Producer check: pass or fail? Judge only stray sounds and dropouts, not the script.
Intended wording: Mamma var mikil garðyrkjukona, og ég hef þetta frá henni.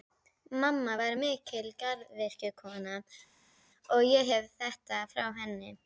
pass